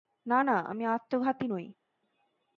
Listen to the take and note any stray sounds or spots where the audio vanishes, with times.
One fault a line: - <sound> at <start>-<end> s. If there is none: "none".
none